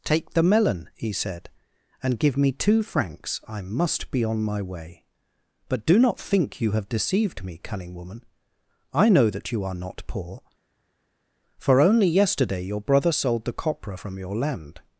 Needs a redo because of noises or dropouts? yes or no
no